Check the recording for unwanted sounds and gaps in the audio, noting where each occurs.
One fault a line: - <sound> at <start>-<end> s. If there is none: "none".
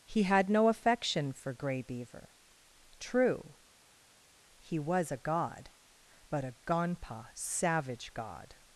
none